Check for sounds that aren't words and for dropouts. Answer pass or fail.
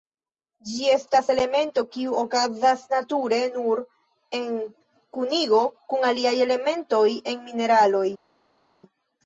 pass